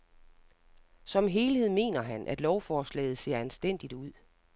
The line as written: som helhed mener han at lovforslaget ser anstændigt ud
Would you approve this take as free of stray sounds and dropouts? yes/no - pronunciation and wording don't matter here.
yes